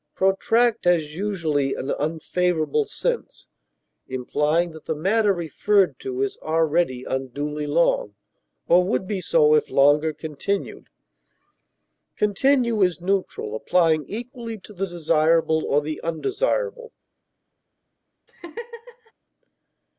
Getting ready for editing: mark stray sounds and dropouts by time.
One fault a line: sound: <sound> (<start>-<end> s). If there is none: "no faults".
sound: laugh (18.3-19.1 s)